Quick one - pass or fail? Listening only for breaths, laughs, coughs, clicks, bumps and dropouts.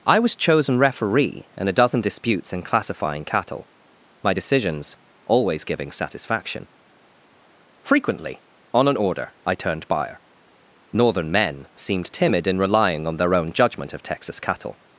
pass